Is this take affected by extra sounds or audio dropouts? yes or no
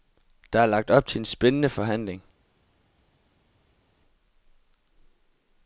no